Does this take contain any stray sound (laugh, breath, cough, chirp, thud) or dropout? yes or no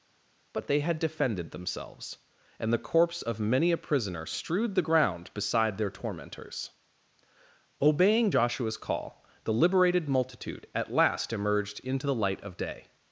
no